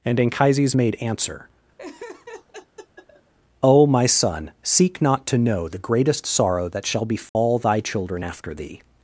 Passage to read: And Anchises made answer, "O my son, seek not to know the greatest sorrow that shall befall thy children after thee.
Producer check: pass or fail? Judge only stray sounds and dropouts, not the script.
fail